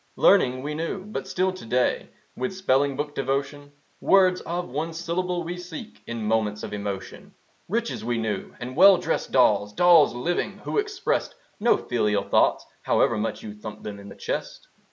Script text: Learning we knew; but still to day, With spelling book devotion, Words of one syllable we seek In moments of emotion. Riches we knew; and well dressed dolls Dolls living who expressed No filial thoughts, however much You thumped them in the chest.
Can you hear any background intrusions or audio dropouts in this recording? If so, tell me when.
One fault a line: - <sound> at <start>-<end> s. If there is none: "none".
none